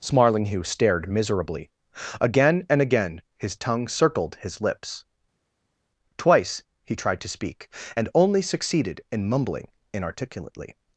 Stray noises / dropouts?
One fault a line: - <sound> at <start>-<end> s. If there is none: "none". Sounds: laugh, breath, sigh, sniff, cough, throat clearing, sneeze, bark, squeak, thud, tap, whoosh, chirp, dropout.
none